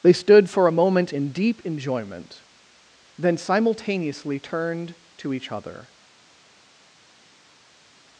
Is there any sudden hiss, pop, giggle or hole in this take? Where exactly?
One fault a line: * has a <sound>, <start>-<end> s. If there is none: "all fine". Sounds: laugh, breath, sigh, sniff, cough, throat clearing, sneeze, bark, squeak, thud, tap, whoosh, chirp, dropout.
all fine